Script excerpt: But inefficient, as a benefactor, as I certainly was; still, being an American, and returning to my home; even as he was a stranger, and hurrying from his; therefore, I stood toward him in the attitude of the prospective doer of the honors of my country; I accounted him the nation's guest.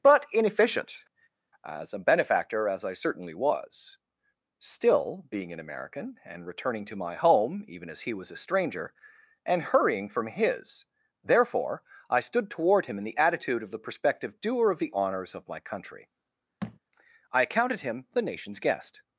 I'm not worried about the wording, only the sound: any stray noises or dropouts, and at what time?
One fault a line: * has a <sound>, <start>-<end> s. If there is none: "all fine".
* has a thud, 16.6-16.8 s